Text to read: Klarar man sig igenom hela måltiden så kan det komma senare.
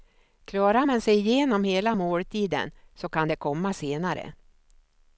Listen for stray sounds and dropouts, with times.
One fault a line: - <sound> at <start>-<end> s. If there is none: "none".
none